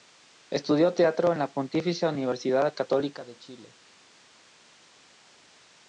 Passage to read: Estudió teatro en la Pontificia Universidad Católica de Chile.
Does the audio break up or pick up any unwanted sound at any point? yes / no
no